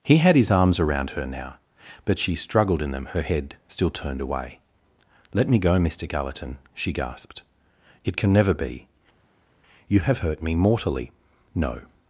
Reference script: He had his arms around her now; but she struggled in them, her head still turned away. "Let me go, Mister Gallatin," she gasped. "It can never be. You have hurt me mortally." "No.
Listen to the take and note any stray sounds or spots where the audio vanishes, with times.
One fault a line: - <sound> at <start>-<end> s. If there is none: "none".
none